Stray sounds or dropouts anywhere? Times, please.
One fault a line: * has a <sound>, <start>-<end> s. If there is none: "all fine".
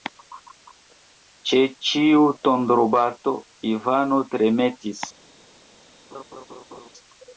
* has a laugh, 6.1-6.9 s